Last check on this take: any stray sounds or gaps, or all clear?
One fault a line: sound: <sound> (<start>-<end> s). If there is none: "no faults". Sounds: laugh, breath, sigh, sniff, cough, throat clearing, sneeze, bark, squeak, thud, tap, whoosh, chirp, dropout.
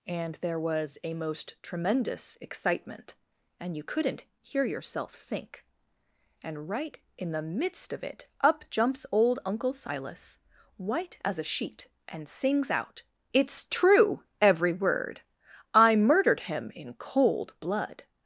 no faults